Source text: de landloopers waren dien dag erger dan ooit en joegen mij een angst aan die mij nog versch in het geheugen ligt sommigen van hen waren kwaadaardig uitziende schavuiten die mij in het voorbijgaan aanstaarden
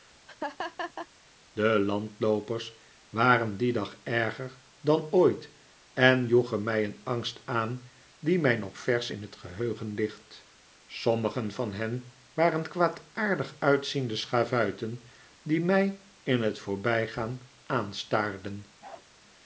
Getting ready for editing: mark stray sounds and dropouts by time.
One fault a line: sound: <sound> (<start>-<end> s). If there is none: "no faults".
sound: laugh (0.3-1.1 s)
sound: bark (18.8-19.1 s)